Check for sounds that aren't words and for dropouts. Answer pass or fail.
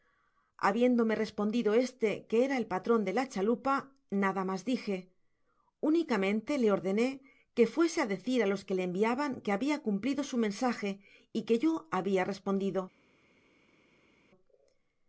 pass